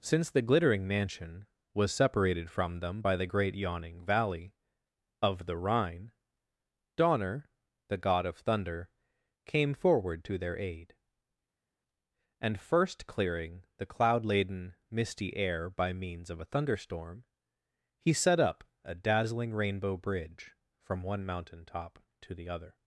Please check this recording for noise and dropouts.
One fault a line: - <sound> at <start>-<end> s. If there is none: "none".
none